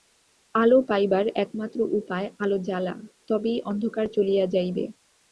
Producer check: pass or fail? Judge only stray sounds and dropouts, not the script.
pass